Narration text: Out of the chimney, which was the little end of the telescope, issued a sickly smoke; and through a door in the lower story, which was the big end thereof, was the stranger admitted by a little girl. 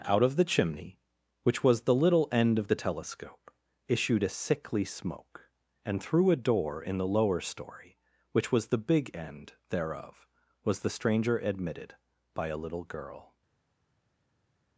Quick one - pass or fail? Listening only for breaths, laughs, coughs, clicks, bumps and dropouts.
pass